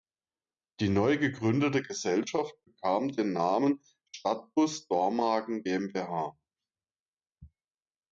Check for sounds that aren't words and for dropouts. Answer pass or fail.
pass